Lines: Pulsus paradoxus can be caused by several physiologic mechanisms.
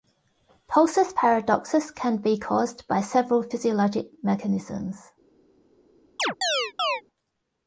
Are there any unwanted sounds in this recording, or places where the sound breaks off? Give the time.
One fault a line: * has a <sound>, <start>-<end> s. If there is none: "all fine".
* has a chirp, 6.2-7.0 s